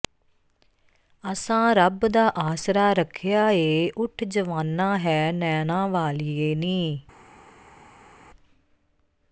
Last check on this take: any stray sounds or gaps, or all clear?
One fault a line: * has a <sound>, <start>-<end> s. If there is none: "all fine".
all fine